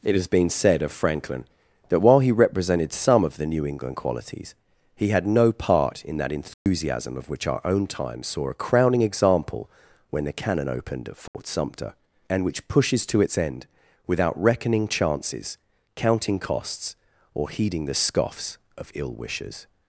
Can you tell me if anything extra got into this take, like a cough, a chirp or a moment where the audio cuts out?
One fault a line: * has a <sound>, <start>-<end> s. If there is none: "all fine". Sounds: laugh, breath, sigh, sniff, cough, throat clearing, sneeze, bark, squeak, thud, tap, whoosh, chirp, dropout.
* has a dropout, 6.5-6.7 s
* has a dropout, 11.3-11.3 s